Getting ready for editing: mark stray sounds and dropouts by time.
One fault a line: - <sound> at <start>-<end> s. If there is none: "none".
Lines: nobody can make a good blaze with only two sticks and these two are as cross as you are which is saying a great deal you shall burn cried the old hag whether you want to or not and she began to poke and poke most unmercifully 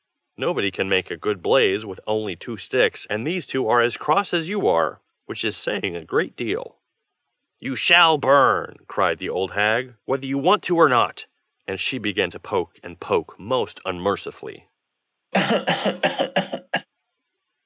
- cough at 15.3-16.9 s